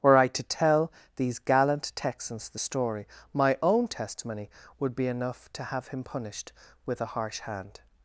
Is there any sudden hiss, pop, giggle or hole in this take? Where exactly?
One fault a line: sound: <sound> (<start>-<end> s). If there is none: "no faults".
no faults